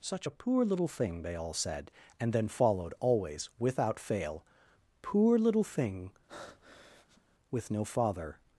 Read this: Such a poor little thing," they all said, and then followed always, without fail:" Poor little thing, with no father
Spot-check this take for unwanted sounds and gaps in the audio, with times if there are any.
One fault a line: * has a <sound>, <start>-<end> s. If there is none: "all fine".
* has a breath, 6.3-7.2 s